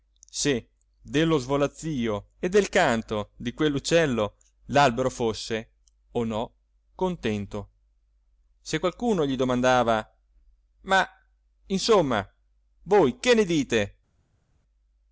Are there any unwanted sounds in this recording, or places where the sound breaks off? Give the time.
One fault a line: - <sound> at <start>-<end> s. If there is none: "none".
none